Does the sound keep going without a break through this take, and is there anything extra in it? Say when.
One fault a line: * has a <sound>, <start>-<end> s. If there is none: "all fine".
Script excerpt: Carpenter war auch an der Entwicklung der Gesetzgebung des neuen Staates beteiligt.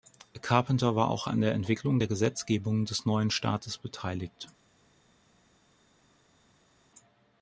all fine